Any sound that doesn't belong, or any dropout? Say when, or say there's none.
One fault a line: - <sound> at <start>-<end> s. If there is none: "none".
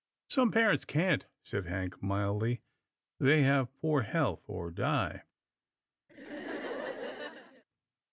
- laugh at 6.1-7.6 s